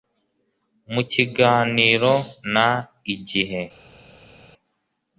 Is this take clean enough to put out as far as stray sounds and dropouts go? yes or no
yes